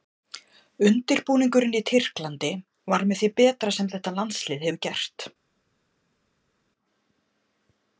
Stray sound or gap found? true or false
false